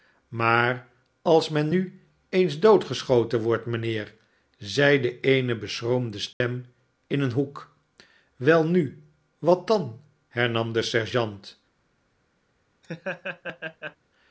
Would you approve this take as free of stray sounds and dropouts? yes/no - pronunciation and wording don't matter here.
no